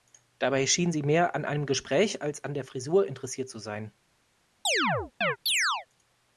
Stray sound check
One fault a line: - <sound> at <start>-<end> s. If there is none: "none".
- chirp at 4.6-5.9 s